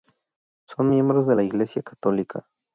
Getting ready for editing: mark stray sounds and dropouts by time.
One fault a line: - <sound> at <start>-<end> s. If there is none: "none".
none